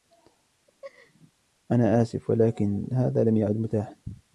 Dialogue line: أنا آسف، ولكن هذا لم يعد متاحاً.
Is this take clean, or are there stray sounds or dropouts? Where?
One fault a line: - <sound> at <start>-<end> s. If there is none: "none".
- laugh at 0.7-1.3 s